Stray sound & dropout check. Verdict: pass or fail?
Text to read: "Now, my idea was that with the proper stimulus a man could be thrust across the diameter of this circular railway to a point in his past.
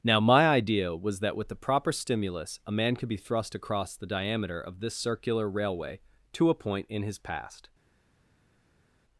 pass